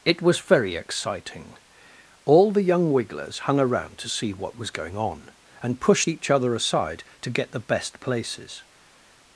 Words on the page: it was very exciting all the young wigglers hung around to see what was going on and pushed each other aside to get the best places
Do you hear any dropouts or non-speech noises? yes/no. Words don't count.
no